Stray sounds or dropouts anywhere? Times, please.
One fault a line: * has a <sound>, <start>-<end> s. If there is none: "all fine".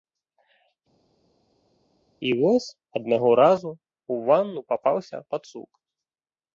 all fine